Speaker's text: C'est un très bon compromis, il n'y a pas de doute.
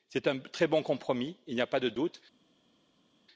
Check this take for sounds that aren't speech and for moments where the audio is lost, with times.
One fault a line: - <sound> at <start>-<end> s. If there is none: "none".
none